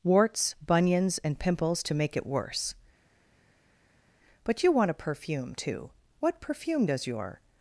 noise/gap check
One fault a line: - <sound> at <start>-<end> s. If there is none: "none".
none